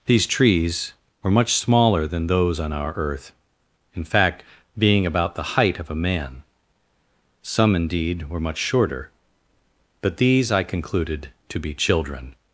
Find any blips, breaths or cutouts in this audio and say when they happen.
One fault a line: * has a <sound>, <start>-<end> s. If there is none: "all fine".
all fine